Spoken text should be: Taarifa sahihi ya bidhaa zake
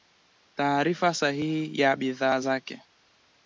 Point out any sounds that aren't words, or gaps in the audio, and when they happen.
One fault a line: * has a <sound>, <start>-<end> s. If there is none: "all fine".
all fine